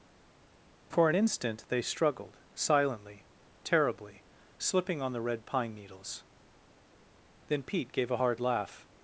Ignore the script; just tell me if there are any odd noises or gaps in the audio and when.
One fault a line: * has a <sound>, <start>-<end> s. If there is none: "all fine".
all fine